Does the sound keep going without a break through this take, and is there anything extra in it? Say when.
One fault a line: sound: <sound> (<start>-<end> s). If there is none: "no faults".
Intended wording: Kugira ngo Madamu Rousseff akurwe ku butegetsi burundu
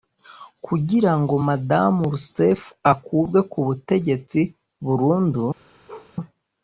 sound: bark (5.9-6.1 s)